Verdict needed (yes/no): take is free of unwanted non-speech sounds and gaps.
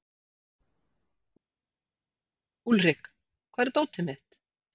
yes